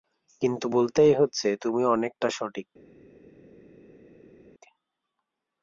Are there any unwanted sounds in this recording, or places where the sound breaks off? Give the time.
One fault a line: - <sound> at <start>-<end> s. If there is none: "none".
none